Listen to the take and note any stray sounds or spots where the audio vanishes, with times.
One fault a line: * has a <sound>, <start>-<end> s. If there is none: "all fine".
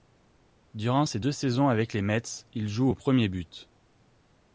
all fine